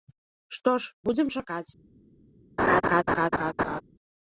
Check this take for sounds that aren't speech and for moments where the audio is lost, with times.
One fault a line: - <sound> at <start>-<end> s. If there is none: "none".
- laugh at 2.6-3.8 s